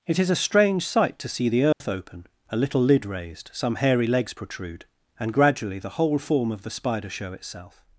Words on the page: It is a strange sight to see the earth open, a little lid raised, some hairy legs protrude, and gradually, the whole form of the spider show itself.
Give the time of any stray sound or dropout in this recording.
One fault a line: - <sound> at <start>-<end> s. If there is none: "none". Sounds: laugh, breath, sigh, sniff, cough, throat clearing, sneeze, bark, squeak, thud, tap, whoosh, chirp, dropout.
- dropout at 1.7-1.8 s